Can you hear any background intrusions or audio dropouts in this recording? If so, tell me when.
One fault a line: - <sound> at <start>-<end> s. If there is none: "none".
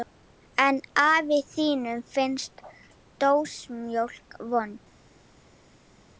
none